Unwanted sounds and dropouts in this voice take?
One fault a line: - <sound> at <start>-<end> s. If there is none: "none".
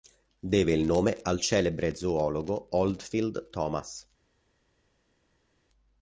none